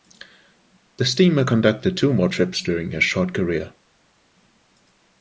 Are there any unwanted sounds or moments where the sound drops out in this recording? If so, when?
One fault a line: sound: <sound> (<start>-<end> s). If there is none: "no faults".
no faults